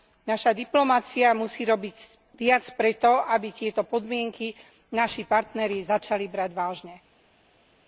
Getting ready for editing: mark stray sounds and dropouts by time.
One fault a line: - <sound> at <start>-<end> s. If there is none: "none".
none